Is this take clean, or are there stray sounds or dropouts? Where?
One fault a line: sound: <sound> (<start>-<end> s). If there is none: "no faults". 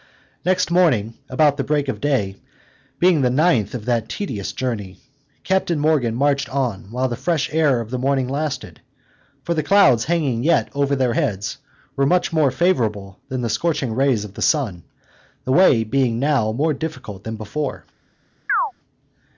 sound: chirp (18.5-18.7 s)